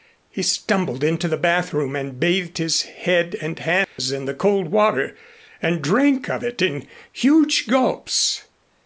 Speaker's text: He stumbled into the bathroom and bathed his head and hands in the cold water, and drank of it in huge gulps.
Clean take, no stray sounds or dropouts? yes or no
no